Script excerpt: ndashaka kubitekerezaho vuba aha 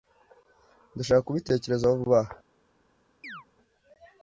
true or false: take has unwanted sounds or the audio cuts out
true